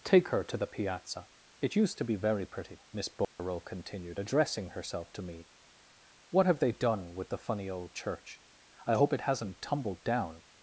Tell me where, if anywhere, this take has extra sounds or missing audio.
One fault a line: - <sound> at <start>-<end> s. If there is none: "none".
- dropout at 3.2-3.4 s